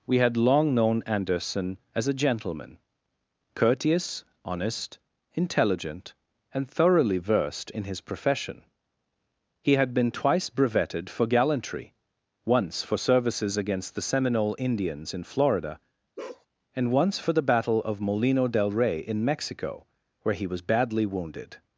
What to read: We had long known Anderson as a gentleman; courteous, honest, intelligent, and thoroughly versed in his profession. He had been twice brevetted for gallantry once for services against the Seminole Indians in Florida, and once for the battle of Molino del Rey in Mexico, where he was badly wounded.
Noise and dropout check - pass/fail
fail